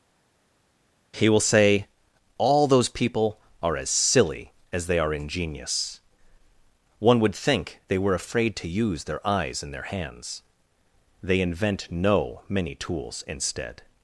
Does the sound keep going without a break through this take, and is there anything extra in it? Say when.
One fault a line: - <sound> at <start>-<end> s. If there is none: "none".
none